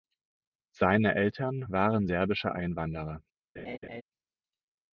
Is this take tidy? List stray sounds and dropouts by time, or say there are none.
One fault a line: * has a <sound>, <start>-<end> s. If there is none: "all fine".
* has a laugh, 3.6-4.0 s